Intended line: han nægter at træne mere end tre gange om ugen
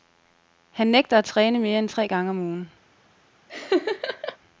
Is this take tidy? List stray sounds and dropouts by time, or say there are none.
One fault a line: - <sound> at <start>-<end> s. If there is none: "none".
- laugh at 3.5-4.4 s